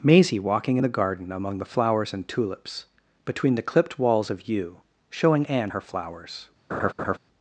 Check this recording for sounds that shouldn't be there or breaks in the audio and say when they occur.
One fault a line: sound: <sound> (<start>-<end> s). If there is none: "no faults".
sound: laugh (6.7-7.2 s)